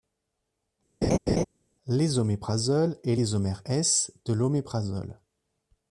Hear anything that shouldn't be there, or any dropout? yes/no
yes